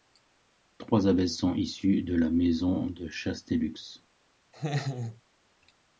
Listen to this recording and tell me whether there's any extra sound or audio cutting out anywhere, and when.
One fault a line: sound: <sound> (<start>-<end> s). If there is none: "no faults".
sound: laugh (4.5-5.2 s)